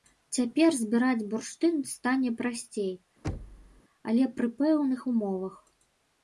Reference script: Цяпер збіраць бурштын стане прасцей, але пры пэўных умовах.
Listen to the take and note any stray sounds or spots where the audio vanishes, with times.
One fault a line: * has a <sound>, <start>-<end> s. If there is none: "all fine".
* has a thud, 3.2-3.8 s